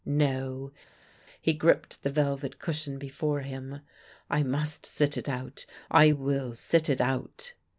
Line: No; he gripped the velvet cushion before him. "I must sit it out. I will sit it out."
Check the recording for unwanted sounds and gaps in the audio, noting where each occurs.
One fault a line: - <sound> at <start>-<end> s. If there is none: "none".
none